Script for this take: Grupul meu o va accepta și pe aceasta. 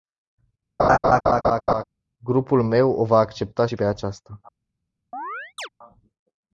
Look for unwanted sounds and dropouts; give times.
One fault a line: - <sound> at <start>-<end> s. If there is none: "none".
- laugh at 0.8-1.8 s
- chirp at 5.1-5.7 s